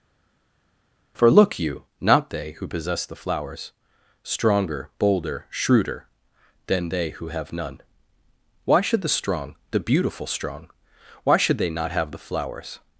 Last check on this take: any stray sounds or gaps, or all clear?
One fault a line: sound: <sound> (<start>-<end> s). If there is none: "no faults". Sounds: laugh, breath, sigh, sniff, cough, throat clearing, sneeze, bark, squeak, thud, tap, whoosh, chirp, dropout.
no faults